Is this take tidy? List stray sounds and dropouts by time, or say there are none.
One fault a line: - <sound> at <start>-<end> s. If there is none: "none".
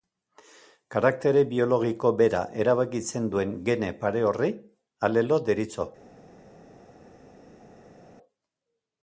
none